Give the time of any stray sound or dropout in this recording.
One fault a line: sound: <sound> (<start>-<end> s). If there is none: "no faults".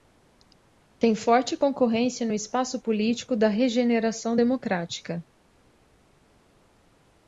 no faults